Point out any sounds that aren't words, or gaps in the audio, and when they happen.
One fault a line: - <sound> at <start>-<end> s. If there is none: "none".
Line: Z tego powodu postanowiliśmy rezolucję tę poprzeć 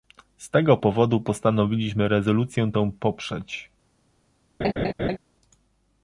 - laugh at 4.6-5.2 s